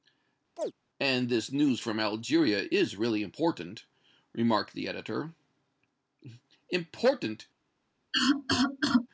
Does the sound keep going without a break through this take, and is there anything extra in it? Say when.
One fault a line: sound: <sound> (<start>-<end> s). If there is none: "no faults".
sound: chirp (0.6-0.7 s)
sound: cough (8.1-9.1 s)